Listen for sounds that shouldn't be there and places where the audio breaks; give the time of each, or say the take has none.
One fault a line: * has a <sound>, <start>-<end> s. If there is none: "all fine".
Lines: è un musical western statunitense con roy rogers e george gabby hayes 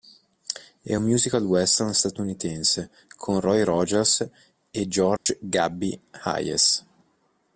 * has a dropout, 5.2-5.3 s